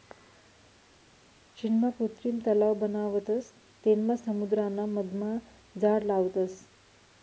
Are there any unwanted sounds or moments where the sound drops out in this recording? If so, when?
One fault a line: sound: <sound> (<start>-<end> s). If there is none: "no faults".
no faults